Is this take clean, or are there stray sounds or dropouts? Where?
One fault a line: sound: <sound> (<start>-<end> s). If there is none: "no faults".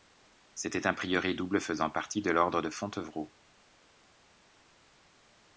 no faults